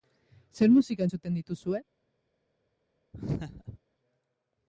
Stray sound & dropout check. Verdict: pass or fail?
fail